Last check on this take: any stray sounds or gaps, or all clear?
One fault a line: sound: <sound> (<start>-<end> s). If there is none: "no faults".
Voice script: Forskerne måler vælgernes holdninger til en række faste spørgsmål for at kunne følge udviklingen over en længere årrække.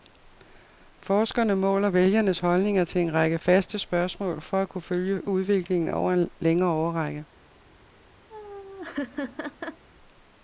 sound: laugh (8.3-9.8 s)